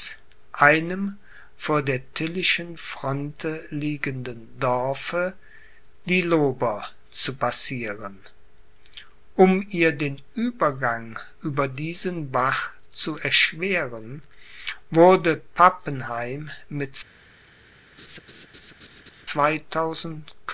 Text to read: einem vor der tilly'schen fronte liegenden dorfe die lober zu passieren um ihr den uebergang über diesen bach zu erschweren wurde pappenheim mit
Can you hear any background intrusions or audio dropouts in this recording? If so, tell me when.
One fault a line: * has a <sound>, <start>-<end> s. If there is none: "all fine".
* has a laugh, 18.0-19.3 s